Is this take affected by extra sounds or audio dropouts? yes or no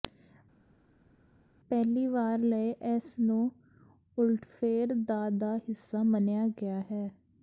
no